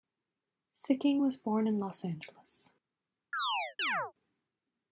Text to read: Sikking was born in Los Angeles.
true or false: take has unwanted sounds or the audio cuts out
true